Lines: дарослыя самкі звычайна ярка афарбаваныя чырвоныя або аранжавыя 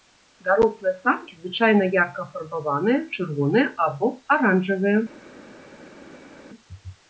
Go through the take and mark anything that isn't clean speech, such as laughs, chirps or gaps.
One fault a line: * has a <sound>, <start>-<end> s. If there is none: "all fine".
all fine